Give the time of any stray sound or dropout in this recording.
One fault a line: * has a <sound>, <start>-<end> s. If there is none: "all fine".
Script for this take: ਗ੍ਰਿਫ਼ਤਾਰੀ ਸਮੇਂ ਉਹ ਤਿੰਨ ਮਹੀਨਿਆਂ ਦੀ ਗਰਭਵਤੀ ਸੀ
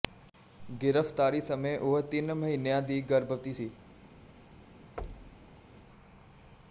* has a thud, 5.0-5.5 s